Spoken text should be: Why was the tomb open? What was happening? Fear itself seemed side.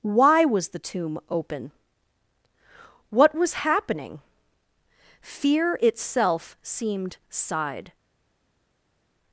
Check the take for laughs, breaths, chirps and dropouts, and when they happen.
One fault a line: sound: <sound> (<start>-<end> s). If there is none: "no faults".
no faults